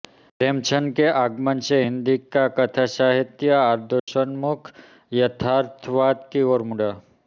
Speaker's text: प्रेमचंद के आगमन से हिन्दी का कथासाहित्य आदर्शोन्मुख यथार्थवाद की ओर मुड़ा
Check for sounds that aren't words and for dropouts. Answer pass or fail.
fail